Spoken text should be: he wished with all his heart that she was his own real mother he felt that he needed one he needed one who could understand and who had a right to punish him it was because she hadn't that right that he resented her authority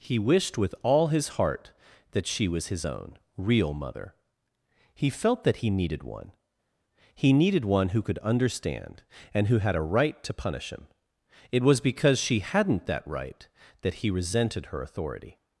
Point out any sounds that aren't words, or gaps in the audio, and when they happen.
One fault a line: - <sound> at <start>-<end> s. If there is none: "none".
none